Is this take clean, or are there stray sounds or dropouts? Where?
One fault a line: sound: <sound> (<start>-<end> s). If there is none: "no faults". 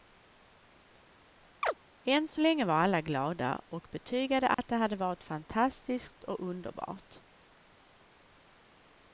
sound: chirp (1.6-1.7 s)
sound: dropout (4.5-4.6 s)